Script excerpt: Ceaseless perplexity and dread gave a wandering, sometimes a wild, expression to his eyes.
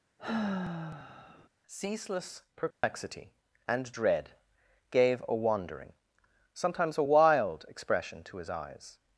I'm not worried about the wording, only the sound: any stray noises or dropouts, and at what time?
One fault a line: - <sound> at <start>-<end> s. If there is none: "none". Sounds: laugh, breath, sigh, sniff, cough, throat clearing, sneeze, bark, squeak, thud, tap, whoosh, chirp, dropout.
- sigh at 0.2-1.5 s
- dropout at 2.7-2.8 s